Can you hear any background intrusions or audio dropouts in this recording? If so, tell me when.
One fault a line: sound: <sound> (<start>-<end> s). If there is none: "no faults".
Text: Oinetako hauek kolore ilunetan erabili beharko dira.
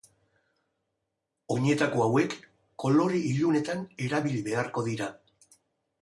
no faults